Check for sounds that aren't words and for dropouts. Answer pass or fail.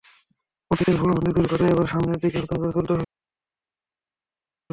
pass